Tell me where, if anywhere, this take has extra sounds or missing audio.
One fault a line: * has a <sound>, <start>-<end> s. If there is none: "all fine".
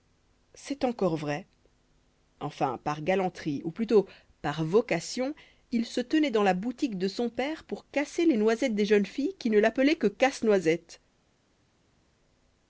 all fine